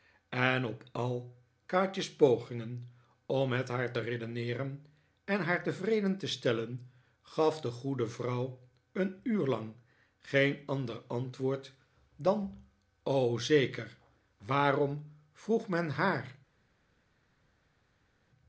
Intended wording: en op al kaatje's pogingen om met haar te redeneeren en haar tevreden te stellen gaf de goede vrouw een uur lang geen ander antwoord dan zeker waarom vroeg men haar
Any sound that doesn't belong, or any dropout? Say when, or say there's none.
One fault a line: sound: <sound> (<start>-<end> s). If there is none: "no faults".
no faults